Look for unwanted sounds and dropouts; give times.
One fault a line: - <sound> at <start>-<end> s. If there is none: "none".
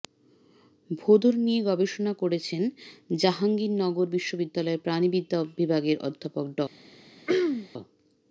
- throat clearing at 7.3-7.7 s